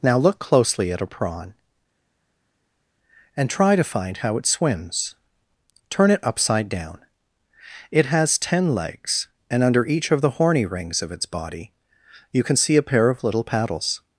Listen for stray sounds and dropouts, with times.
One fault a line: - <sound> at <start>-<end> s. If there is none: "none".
none